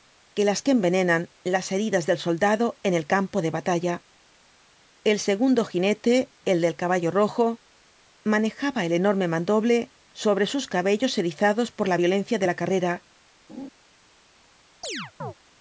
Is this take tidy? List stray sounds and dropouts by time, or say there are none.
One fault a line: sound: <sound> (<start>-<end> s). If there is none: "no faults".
sound: laugh (13.5-13.7 s)
sound: chirp (14.8-15.3 s)